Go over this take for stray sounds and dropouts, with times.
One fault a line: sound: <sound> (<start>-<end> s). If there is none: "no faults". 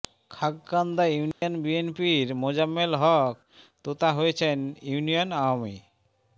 sound: dropout (1.3-1.4 s)